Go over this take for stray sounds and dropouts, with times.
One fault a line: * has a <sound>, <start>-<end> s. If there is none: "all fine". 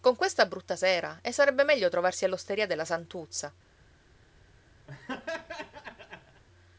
* has a laugh, 4.9-6.4 s